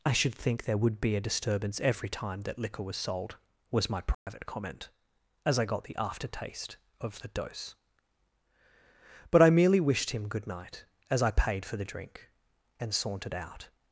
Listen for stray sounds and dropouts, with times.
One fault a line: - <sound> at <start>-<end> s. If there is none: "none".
- dropout at 4.1-4.3 s